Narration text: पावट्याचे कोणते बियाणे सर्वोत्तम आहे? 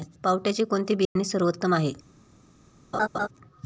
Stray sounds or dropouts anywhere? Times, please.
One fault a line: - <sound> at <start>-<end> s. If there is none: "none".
- dropout at 1.0-1.2 s
- laugh at 2.9-3.3 s